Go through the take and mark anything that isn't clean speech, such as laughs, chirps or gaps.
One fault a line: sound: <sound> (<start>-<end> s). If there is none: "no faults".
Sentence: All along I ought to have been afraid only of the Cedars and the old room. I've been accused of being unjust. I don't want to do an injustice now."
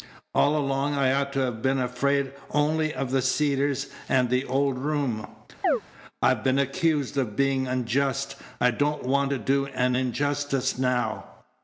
sound: chirp (5.6-5.8 s)